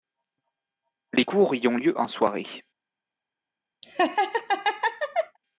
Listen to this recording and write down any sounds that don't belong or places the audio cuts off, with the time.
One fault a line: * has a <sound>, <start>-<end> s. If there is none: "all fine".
* has a laugh, 3.8-5.4 s